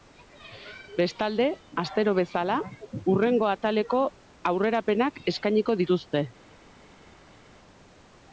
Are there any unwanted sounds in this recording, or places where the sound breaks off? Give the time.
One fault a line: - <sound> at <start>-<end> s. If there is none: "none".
none